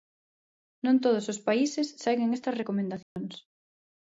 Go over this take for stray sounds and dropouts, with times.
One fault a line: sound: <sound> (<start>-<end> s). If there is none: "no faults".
sound: dropout (3.0-3.2 s)